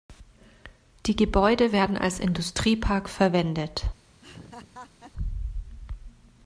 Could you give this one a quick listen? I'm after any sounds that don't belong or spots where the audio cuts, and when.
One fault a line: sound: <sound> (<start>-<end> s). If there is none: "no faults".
sound: laugh (4.2-5.1 s)